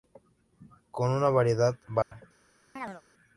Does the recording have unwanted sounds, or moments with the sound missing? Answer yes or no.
yes